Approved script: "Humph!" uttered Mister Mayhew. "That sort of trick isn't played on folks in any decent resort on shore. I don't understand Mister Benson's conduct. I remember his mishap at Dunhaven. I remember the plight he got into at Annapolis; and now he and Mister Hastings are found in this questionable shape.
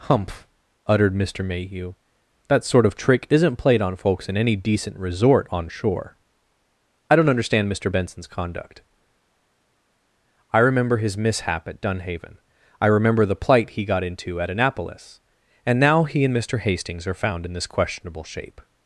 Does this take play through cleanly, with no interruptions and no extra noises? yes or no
yes